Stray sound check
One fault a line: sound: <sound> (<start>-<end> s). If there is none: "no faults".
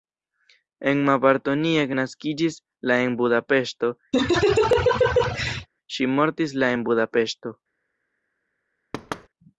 sound: laugh (4.1-5.7 s)
sound: thud (8.9-9.3 s)